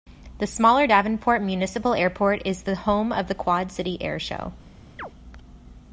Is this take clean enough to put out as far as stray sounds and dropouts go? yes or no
no